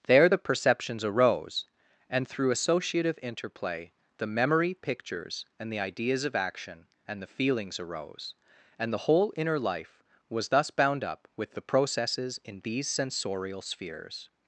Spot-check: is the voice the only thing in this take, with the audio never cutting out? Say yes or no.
yes